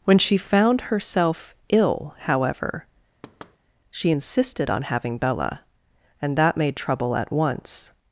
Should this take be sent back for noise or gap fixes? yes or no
yes